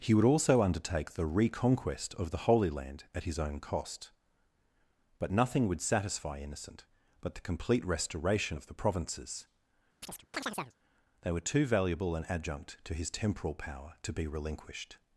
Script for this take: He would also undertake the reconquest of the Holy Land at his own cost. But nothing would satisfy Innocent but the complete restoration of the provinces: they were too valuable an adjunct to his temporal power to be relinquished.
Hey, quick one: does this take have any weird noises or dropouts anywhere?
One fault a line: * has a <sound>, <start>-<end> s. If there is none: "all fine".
* has a chirp, 10.0-10.7 s